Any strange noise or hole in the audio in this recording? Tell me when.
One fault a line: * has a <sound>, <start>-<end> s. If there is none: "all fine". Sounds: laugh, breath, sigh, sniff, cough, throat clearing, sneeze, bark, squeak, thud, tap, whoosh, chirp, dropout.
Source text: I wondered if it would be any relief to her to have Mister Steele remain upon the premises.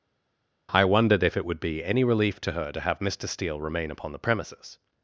all fine